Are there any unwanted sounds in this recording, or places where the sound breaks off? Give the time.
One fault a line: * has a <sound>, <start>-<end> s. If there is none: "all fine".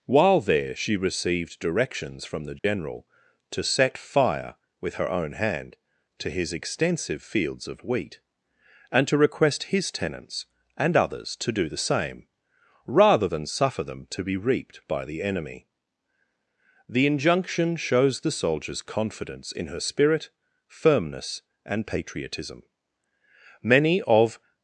* has a dropout, 2.6-2.6 s